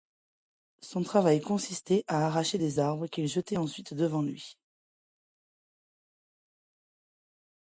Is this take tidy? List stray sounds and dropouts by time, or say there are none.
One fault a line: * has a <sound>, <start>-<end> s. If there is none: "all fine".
all fine